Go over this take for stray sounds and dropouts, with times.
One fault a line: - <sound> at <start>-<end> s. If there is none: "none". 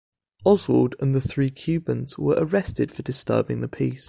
none